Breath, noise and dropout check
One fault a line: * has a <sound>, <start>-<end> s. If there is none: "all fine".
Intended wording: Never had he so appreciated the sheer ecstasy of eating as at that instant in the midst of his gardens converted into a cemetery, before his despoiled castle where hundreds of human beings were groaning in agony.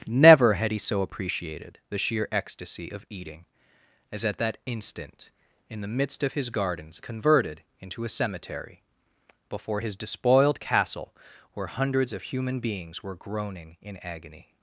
all fine